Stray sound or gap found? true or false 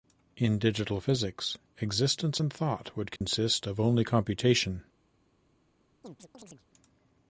true